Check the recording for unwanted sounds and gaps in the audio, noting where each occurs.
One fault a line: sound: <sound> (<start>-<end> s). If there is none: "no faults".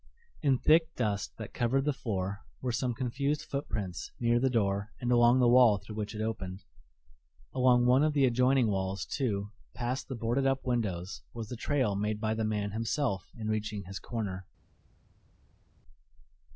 no faults